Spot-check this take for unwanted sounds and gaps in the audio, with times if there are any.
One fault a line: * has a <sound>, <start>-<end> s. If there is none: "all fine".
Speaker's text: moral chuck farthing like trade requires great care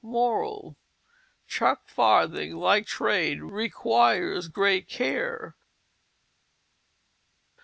all fine